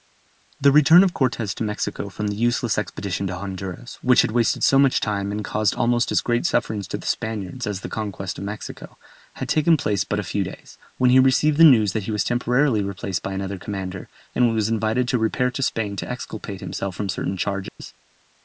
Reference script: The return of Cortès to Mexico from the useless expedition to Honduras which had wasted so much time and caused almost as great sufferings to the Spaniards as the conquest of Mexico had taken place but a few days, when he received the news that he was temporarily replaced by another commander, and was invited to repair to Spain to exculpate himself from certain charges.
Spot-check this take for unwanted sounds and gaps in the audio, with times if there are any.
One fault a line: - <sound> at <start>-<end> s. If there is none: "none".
- dropout at 17.7-17.8 s